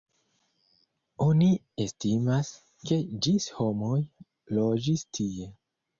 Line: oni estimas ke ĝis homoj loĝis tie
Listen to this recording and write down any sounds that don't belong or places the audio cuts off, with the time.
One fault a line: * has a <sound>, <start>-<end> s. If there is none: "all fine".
all fine